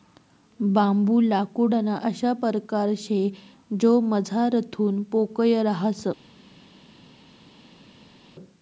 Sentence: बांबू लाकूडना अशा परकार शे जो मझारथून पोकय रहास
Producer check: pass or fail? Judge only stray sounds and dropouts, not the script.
pass